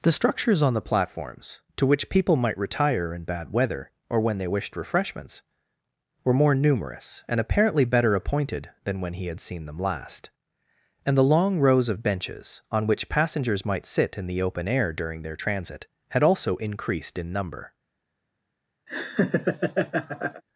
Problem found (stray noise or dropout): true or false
true